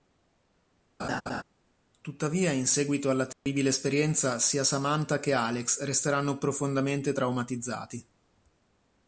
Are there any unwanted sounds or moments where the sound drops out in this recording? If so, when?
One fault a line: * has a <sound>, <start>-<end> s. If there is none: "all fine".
* has a laugh, 1.0-1.4 s
* has a dropout, 3.3-3.5 s